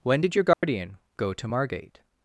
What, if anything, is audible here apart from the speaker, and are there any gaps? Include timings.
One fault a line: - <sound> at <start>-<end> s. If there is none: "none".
- dropout at 0.5-0.6 s